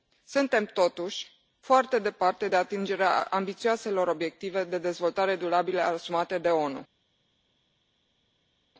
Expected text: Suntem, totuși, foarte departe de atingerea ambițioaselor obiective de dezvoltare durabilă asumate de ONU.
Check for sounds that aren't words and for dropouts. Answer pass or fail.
pass